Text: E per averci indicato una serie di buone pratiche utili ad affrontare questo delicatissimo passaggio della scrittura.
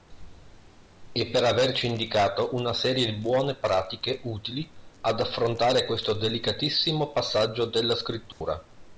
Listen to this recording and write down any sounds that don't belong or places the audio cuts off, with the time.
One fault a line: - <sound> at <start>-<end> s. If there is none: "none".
- dropout at 8.3-8.4 s